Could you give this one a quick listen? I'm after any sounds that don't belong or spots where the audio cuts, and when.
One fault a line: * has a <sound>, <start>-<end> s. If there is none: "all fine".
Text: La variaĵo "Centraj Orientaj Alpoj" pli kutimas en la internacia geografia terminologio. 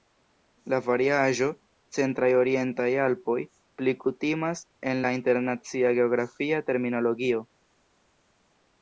all fine